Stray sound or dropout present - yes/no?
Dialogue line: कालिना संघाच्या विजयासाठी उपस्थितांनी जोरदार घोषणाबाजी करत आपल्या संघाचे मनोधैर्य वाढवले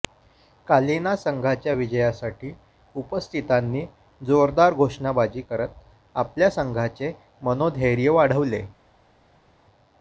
no